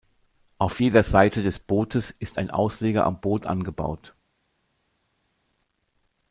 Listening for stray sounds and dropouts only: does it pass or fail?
pass